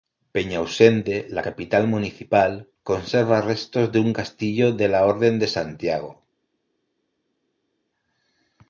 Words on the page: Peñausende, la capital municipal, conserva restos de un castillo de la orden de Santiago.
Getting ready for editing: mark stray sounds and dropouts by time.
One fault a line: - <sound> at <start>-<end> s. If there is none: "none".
none